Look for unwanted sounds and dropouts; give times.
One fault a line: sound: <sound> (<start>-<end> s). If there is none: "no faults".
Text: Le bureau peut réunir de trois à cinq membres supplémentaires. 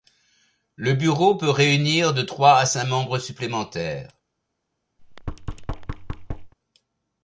sound: thud (5.0-6.5 s)